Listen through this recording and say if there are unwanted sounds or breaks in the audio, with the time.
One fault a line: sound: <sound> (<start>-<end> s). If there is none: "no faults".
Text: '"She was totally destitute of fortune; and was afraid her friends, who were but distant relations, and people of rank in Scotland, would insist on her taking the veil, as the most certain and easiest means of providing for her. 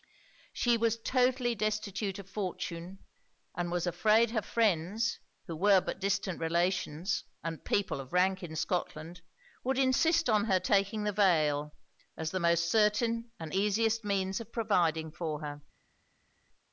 no faults